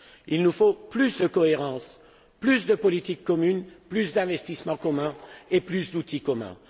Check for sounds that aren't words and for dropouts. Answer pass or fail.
pass